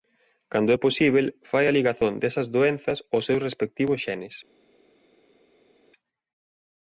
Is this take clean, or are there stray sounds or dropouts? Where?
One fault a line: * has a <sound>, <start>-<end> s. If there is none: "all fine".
all fine